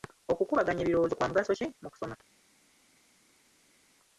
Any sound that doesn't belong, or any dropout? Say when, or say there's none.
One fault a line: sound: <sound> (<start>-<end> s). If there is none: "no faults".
no faults